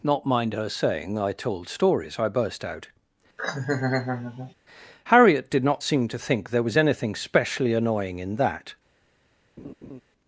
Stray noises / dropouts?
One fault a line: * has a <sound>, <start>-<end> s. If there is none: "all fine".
* has a laugh, 3.4-4.5 s
* has a laugh, 9.6-10.0 s